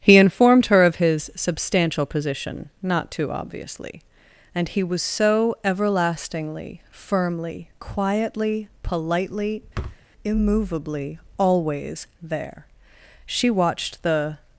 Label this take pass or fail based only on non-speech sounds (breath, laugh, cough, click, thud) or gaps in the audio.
fail